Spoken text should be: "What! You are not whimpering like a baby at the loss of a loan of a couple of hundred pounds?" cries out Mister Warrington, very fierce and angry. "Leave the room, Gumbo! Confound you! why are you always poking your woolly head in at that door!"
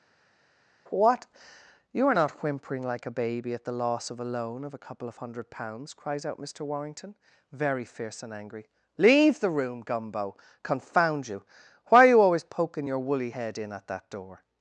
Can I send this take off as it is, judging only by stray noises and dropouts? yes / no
yes